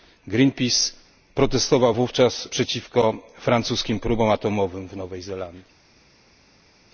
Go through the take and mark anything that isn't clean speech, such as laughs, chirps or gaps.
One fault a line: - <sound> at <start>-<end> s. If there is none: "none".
none